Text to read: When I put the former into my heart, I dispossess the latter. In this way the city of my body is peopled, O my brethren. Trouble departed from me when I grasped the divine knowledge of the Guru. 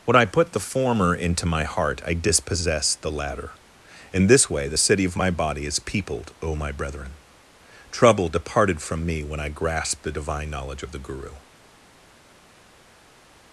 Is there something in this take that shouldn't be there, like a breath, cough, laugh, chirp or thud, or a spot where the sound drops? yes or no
no